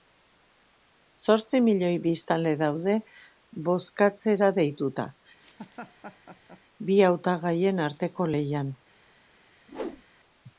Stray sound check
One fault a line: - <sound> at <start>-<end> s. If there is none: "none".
- laugh at 5.4-6.6 s
- whoosh at 9.7-10.0 s